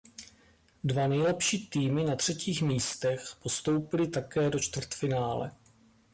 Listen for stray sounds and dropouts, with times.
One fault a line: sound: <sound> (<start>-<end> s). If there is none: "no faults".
no faults